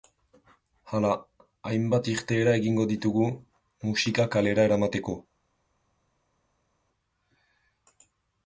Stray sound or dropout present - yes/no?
no